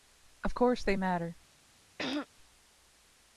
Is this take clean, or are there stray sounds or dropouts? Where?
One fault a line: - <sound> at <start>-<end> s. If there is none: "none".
- throat clearing at 2.0-2.3 s